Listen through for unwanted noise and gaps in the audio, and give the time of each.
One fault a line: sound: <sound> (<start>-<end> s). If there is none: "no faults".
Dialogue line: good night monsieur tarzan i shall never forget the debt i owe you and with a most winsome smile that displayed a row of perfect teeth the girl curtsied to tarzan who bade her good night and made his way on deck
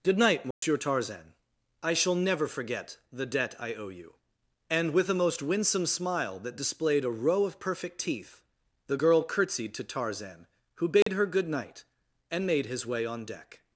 sound: dropout (0.5-0.6 s)
sound: dropout (11.0-11.1 s)